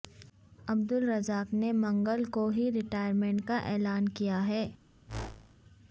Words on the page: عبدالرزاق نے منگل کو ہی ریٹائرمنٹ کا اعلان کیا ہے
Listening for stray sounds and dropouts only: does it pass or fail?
fail